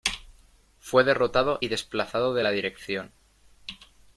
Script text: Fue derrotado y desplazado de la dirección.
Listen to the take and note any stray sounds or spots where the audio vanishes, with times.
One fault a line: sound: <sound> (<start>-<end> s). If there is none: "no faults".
no faults